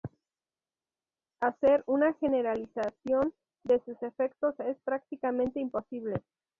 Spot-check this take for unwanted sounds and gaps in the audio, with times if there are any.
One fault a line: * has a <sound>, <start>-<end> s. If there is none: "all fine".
all fine